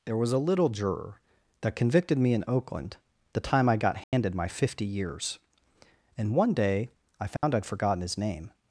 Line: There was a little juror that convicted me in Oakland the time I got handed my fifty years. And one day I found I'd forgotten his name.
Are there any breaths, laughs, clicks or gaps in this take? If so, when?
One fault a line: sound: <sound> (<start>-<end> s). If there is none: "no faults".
sound: dropout (4.0-4.1 s)
sound: dropout (7.4-7.4 s)